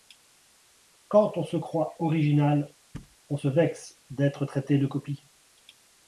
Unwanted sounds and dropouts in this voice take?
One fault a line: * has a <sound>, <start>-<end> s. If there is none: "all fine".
* has a thud, 2.9-3.2 s